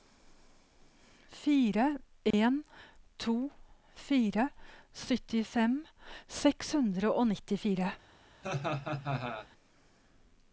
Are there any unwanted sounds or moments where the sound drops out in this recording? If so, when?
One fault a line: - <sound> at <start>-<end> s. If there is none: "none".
- dropout at 2.3-2.3 s
- laugh at 8.4-9.5 s